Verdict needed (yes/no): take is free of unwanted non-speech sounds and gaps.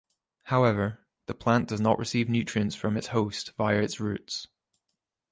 yes